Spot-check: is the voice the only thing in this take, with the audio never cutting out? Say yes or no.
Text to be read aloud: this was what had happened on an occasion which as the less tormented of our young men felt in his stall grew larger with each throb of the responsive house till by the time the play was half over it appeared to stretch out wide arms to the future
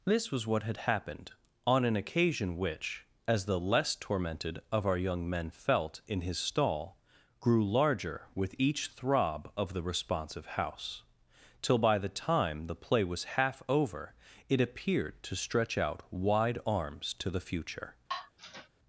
no